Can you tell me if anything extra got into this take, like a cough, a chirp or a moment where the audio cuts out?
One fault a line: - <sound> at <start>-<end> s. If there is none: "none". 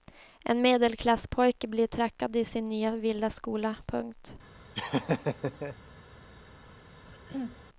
- laugh at 4.7-5.8 s
- throat clearing at 7.1-7.6 s